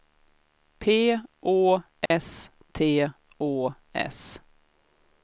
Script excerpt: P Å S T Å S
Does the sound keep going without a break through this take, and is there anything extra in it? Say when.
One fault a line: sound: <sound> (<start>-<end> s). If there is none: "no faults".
sound: dropout (2.1-2.1 s)